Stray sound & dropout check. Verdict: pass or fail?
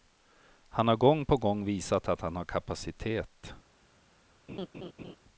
fail